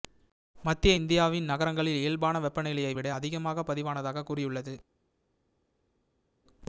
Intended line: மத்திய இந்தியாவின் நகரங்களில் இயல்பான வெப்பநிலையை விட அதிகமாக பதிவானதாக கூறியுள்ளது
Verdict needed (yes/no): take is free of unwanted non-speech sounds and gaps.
yes